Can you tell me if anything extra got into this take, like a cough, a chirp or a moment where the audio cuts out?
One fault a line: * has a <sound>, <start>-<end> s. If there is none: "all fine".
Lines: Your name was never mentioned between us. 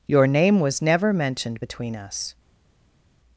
all fine